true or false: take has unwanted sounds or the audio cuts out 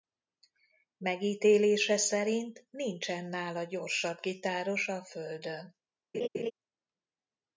true